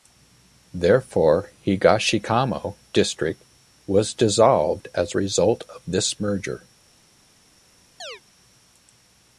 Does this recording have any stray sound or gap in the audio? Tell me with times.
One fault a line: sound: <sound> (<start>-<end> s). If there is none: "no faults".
sound: chirp (8.0-8.2 s)